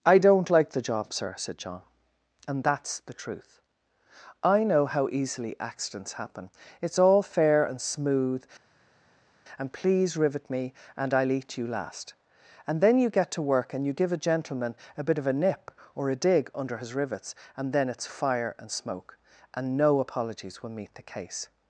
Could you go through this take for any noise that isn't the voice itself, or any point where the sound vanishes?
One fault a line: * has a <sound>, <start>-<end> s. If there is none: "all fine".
all fine